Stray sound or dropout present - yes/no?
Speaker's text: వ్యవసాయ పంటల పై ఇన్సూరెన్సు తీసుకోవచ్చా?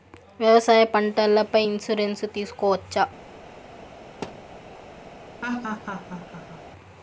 yes